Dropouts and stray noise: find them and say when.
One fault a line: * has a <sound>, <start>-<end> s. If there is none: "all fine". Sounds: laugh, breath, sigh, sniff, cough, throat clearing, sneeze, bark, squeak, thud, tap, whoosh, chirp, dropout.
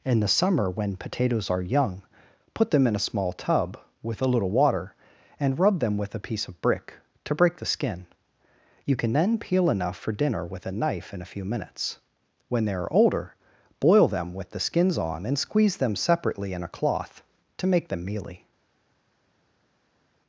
all fine